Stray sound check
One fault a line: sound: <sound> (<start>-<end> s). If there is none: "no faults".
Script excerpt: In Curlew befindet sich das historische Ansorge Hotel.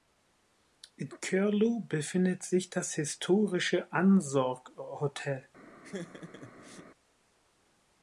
sound: laugh (5.8-6.9 s)